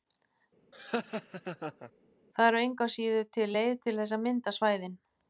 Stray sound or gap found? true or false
true